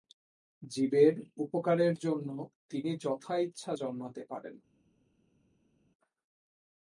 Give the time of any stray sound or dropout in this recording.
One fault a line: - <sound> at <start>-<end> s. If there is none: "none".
none